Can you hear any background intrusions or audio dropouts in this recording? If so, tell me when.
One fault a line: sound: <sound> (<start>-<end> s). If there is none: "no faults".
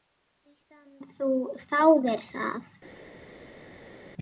no faults